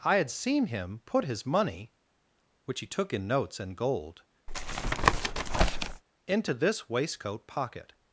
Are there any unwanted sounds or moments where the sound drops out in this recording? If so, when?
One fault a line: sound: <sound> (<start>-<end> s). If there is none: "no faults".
sound: tap (4.5-6.0 s)